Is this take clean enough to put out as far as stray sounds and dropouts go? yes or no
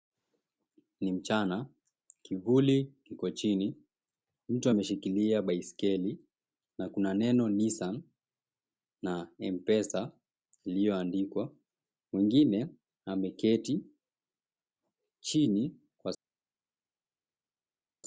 yes